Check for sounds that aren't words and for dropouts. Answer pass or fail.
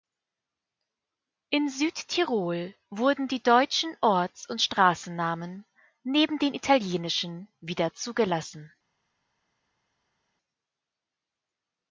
pass